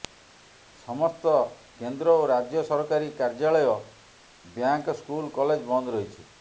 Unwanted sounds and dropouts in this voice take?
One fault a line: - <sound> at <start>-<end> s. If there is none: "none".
none